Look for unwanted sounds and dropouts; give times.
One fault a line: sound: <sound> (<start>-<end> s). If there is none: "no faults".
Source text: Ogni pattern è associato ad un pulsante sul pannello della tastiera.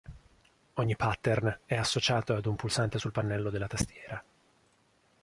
no faults